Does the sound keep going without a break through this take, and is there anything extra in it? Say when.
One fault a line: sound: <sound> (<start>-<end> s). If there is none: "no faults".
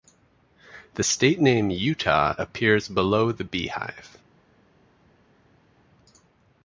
no faults